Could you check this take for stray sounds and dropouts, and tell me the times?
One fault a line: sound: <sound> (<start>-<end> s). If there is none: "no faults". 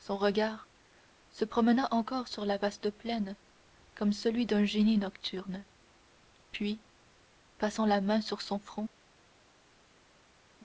no faults